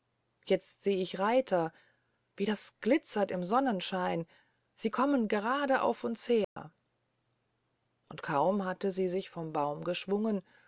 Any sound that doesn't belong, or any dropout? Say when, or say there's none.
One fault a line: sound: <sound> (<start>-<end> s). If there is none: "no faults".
sound: dropout (6.4-6.6 s)